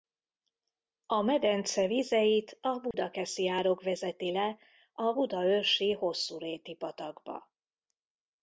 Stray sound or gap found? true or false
true